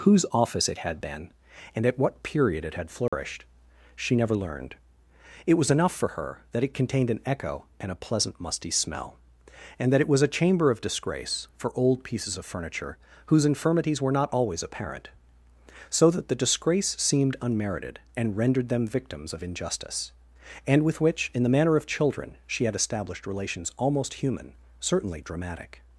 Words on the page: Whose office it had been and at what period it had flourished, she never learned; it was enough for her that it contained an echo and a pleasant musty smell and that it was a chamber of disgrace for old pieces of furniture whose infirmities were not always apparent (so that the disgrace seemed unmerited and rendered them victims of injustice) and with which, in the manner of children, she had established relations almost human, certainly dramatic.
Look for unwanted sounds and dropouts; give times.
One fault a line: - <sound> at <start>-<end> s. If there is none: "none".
- dropout at 3.1-3.1 s